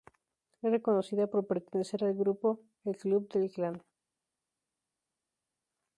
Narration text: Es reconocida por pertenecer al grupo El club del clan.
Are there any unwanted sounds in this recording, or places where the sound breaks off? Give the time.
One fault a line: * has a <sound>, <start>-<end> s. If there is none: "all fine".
all fine